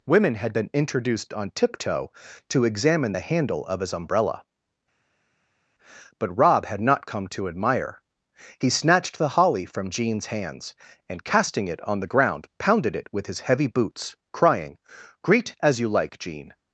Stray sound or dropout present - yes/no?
no